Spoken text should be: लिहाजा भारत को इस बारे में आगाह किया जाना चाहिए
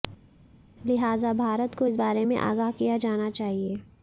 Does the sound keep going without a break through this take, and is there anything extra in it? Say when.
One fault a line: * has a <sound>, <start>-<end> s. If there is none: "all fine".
all fine